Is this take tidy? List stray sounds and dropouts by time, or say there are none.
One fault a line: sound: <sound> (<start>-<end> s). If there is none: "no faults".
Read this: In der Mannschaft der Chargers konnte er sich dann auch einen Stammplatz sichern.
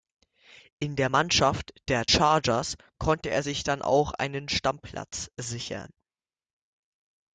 no faults